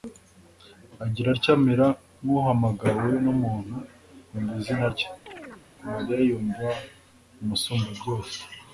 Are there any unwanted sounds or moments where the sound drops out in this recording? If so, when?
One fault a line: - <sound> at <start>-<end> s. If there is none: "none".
- chirp at 5.3-5.7 s